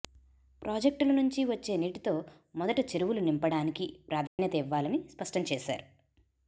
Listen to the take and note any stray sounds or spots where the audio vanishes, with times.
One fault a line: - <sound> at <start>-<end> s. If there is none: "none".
- dropout at 4.3-4.4 s